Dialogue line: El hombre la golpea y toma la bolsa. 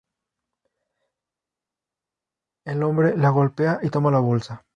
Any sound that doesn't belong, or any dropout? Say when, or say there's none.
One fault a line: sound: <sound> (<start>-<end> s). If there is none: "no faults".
no faults